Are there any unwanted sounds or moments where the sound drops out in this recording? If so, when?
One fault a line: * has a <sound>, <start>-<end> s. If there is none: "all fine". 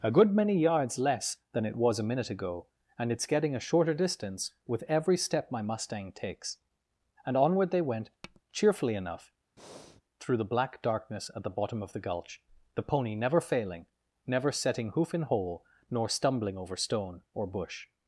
* has a tap, 8.2-8.4 s
* has a breath, 9.6-10.0 s